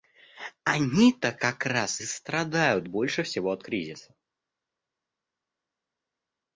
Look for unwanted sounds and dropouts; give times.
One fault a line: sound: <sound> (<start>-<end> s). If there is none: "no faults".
no faults